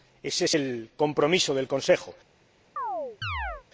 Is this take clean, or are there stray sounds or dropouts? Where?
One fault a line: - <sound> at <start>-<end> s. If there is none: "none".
- chirp at 2.8-3.6 s